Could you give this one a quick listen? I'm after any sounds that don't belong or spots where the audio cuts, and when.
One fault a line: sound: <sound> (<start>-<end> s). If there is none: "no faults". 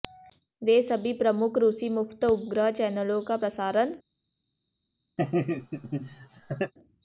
sound: laugh (5.2-6.7 s)